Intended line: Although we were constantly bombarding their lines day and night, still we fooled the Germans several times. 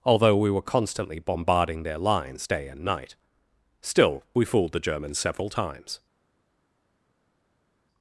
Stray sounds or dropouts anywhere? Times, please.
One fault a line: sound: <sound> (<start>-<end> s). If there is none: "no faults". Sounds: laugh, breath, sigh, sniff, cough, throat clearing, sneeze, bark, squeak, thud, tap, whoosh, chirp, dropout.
no faults